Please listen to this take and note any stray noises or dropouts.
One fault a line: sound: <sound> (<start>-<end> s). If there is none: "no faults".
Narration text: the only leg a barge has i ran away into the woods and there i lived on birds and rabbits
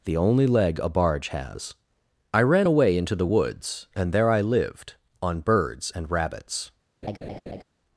sound: laugh (7.0-7.6 s)